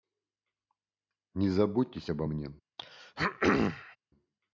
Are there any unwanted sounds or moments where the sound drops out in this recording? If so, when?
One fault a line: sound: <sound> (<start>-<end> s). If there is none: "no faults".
sound: throat clearing (2.8-4.0 s)